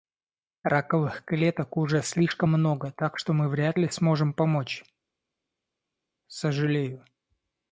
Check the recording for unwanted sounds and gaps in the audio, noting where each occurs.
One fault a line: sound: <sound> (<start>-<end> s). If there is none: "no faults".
no faults